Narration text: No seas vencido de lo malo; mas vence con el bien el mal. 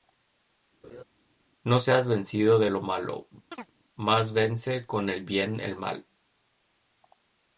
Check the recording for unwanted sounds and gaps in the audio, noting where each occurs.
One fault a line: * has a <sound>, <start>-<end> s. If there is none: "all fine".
* has a laugh, 0.8-1.0 s
* has a chirp, 3.5-3.7 s